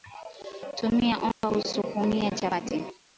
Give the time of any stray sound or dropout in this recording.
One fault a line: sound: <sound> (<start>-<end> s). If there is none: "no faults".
sound: dropout (1.3-1.4 s)